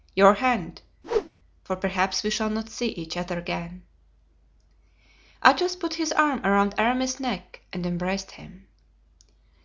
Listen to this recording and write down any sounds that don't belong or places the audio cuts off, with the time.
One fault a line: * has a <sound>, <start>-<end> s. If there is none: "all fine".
* has a whoosh, 1.0-1.3 s